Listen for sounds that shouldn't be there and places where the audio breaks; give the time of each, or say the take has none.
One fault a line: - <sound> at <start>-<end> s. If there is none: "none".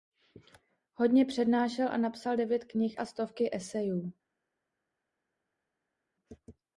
none